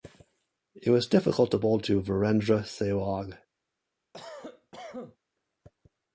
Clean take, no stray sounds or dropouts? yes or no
no